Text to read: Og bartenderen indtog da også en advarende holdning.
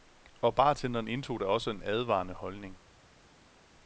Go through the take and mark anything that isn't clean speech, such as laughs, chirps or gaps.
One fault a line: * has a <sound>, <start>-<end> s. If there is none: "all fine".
all fine